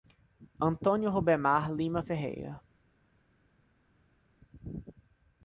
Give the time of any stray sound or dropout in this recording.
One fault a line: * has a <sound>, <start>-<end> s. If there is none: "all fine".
all fine